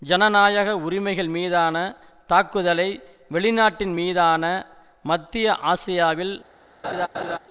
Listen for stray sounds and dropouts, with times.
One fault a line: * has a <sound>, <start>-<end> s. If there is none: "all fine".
* has a laugh, 6.8-7.4 s